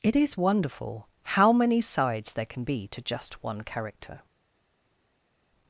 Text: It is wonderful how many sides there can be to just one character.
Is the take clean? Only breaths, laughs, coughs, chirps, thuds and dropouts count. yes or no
yes